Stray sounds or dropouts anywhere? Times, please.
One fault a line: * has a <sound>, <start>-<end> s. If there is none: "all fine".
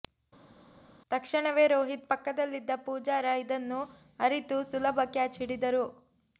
all fine